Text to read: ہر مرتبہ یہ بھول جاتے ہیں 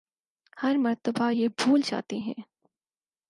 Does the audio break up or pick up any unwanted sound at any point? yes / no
no